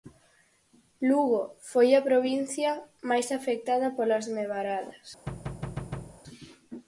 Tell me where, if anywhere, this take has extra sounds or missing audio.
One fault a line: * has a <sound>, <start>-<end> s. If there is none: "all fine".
* has a thud, 5.3-6.2 s